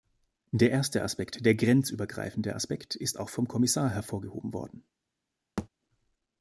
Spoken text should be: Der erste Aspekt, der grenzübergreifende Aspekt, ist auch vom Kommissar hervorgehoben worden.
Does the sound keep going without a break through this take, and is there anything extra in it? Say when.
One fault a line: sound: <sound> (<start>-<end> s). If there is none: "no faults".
sound: thud (5.6-5.7 s)